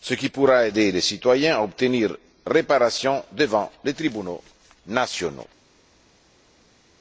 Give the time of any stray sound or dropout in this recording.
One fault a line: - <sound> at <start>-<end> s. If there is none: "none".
none